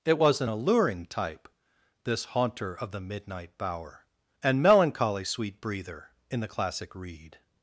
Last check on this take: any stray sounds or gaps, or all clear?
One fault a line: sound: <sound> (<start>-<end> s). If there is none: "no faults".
no faults